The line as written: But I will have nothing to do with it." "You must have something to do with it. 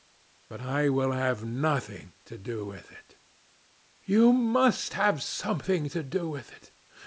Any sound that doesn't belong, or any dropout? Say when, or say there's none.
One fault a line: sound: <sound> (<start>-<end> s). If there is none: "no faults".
no faults